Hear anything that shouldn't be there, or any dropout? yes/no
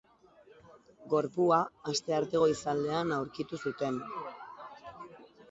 no